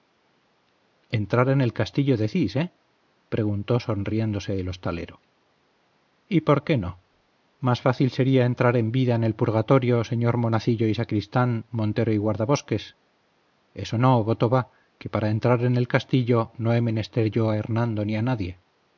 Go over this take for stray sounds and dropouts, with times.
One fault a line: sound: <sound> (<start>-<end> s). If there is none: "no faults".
no faults